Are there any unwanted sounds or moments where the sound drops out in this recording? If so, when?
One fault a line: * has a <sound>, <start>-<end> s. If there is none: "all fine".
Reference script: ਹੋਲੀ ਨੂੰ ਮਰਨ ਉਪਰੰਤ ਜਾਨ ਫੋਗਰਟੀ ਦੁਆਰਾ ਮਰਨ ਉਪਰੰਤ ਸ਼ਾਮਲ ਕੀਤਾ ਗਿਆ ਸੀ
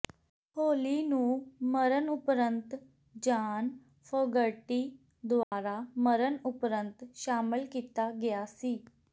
* has a dropout, 5.4-5.5 s